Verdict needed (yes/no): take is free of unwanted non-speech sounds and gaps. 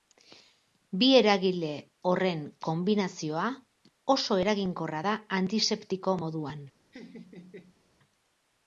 no